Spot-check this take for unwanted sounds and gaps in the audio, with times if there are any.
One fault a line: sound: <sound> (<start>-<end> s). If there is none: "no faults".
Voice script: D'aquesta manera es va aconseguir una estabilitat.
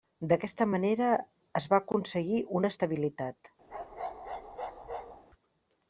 sound: bark (3.7-5.2 s)